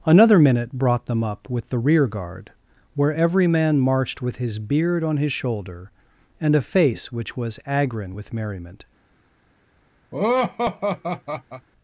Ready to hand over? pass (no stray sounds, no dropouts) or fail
fail